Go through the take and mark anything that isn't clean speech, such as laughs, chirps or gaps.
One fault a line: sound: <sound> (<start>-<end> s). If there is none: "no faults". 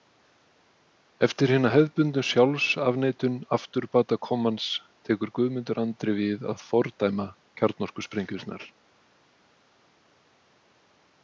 no faults